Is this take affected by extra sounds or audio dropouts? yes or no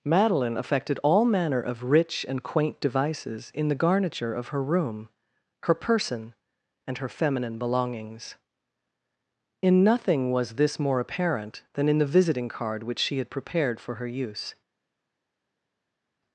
no